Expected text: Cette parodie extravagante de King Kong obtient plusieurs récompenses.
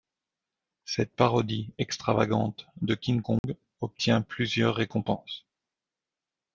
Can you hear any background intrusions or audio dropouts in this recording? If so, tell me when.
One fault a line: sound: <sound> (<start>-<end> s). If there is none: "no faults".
sound: dropout (3.4-3.4 s)